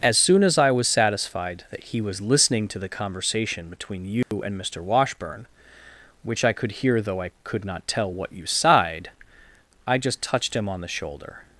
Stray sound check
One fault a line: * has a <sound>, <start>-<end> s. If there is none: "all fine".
* has a dropout, 4.2-4.3 s